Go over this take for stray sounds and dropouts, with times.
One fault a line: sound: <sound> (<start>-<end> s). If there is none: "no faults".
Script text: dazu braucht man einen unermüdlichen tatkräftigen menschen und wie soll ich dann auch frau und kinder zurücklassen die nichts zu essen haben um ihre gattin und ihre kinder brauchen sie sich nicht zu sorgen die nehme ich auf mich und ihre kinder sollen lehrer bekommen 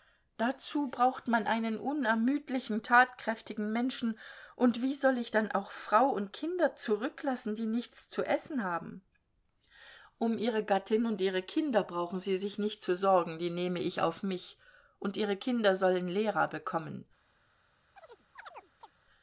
sound: chirp (18.0-18.9 s)